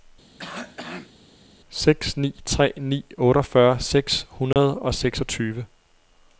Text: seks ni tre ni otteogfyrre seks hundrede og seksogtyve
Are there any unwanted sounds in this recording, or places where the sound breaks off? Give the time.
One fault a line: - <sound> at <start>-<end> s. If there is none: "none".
- cough at 0.4-1.1 s
- dropout at 4.5-4.6 s